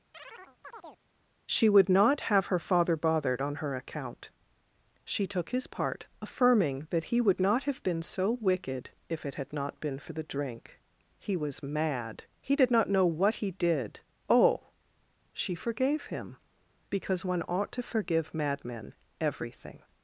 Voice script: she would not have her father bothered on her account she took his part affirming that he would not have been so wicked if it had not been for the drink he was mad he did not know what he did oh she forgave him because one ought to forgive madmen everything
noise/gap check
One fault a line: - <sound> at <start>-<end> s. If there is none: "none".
- chirp at 0.1-1.0 s